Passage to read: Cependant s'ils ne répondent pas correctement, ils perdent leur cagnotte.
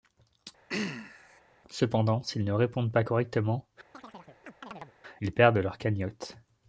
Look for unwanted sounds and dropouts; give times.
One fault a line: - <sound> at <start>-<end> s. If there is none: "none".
- throat clearing at 0.7-1.4 s
- chirp at 3.9-4.9 s